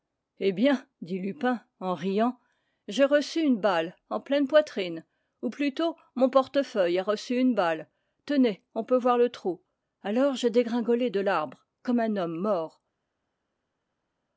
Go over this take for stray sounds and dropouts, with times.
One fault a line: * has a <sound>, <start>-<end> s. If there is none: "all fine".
all fine